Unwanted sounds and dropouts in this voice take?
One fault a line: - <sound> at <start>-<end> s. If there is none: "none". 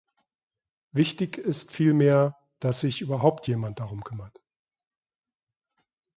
none